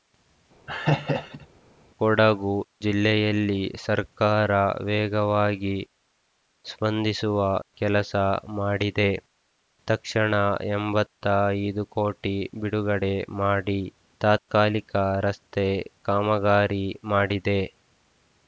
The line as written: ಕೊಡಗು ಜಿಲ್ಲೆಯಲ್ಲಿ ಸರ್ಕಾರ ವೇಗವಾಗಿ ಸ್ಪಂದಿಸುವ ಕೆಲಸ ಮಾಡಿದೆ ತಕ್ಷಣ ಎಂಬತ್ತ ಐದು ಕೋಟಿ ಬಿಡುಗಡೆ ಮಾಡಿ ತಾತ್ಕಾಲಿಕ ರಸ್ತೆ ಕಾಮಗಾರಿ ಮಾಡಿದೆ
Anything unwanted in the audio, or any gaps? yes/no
yes